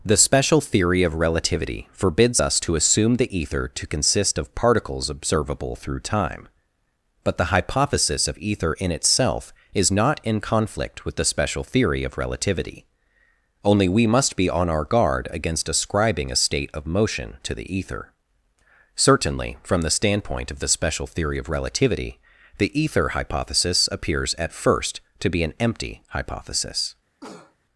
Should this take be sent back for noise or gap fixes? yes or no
yes